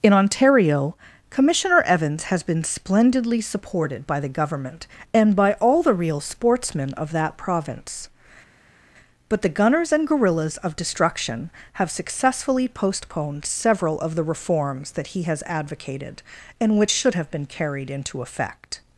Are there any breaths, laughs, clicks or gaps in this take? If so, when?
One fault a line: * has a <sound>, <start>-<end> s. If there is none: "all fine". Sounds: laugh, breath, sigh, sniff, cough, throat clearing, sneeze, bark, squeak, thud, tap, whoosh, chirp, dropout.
all fine